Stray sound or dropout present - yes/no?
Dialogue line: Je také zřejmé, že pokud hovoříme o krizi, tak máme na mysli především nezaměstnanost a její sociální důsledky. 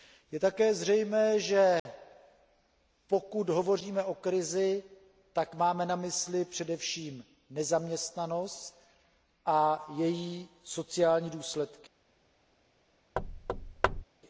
yes